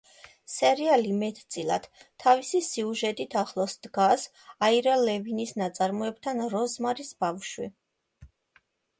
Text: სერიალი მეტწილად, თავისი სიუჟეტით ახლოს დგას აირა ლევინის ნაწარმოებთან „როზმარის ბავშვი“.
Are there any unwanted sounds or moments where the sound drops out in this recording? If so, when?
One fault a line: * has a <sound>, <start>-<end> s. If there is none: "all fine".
all fine